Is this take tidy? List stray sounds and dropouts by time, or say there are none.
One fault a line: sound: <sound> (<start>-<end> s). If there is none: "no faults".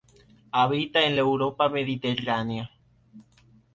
no faults